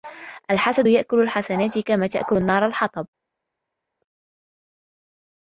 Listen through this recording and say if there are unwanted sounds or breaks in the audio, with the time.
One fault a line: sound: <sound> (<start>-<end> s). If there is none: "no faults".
no faults